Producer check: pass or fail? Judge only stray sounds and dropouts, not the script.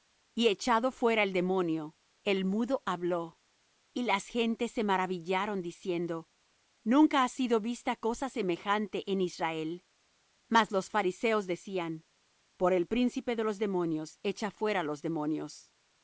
pass